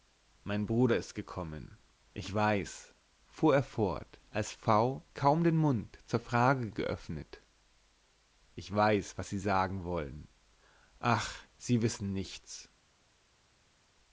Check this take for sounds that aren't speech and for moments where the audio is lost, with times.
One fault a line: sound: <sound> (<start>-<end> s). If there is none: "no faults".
no faults